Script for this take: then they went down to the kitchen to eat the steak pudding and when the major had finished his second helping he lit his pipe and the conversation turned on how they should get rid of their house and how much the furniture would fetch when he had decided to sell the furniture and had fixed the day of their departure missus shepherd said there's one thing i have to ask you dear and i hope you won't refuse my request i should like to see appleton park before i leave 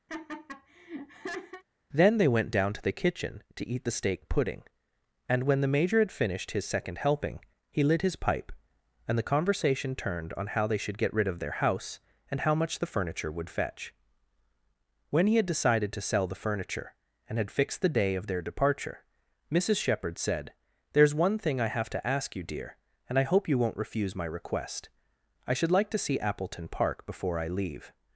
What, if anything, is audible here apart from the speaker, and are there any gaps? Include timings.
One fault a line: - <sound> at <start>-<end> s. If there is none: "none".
- laugh at 0.1-1.6 s